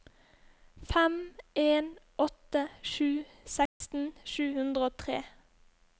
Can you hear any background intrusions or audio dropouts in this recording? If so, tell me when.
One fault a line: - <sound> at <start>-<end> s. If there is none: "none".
- dropout at 3.7-3.8 s